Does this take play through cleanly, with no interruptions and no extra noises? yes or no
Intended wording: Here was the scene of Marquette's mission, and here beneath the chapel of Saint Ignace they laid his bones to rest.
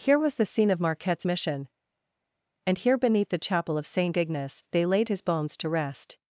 yes